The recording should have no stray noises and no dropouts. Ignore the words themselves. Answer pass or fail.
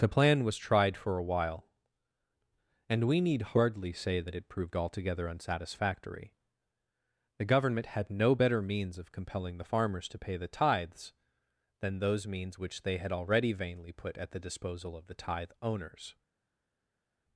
pass